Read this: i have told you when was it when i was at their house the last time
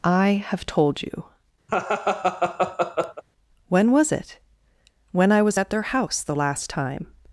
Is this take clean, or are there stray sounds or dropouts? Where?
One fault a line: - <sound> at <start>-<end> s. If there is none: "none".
- laugh at 1.7-3.2 s